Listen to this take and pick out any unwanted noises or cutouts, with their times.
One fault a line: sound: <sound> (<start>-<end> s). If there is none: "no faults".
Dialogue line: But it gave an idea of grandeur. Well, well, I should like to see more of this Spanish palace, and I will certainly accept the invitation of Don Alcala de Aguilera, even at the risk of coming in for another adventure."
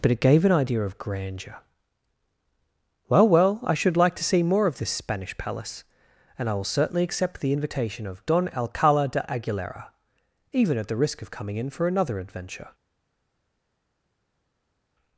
no faults